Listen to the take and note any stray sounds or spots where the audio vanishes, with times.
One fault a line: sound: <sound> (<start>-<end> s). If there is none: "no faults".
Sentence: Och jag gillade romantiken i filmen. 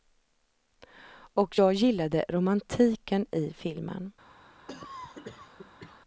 sound: cough (4.7-6.0 s)